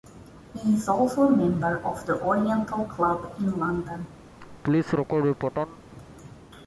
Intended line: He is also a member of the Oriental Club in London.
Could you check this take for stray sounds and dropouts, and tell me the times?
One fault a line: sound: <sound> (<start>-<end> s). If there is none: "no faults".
sound: laugh (4.4-5.8 s)